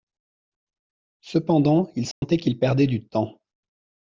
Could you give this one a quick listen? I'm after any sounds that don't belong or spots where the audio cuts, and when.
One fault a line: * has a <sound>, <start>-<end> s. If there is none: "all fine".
* has a dropout, 2.1-2.2 s